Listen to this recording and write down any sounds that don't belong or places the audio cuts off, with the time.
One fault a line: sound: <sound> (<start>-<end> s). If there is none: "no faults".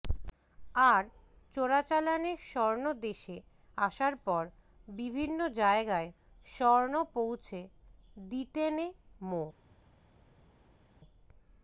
no faults